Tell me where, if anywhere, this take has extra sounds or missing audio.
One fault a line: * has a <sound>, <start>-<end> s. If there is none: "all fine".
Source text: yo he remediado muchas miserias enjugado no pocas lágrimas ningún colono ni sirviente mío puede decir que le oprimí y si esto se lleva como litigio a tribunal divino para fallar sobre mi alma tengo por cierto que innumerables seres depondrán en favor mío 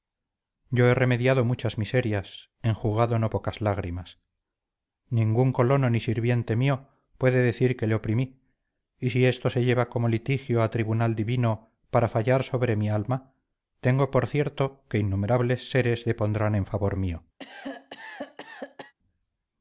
* has a cough, 17.4-18.9 s